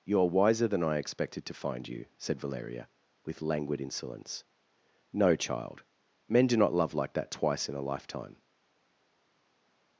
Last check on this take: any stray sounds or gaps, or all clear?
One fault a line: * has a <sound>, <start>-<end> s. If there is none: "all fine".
all fine